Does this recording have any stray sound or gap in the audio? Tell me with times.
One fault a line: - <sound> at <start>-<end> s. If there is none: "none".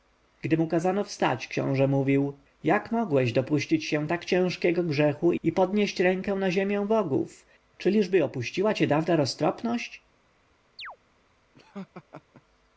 - chirp at 10.8-11.0 s
- laugh at 11.5-12.4 s